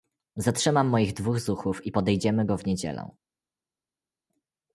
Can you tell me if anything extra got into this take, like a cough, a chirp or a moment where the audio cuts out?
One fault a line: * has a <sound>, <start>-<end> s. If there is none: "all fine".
all fine